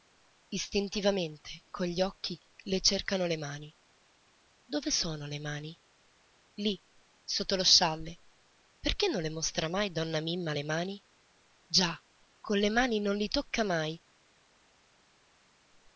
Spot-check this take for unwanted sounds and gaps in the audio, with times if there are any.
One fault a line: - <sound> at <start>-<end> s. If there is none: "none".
none